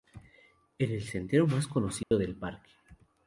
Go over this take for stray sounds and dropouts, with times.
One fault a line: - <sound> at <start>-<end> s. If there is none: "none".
- dropout at 2.0-2.1 s